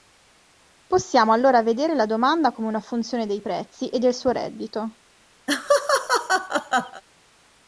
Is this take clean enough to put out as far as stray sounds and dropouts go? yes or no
no